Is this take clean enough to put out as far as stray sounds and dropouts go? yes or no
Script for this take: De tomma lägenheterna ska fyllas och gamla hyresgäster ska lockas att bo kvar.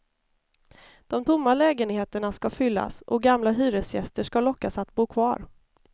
yes